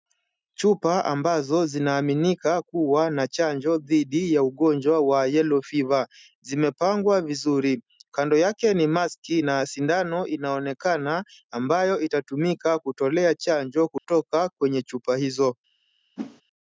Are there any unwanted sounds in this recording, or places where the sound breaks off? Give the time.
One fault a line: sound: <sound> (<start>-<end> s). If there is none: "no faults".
sound: dropout (14.0-14.0 s)
sound: whoosh (16.2-16.4 s)